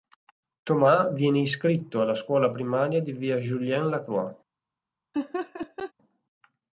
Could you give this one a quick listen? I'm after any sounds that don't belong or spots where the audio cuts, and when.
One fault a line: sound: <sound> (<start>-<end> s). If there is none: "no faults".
sound: laugh (5.1-5.9 s)